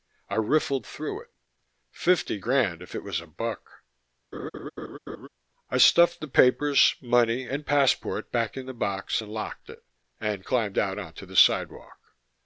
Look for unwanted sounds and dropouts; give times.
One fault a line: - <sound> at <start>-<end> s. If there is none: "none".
- laugh at 4.3-5.3 s